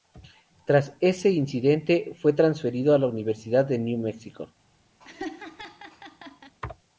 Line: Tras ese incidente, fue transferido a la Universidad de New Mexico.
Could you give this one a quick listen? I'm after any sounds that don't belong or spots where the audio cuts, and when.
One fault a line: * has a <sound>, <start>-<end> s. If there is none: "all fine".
* has a laugh, 5.0-6.5 s